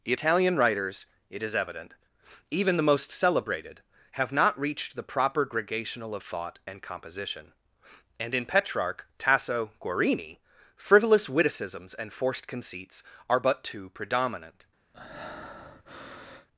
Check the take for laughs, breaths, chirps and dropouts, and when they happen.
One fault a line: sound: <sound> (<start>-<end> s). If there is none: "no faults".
sound: breath (14.9-16.5 s)